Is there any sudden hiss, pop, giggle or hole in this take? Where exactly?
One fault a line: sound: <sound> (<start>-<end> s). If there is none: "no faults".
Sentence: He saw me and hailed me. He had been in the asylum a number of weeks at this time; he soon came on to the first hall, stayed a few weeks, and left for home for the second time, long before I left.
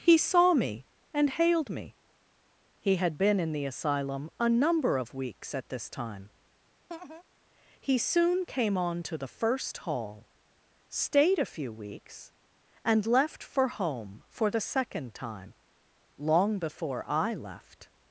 sound: laugh (6.9-7.2 s)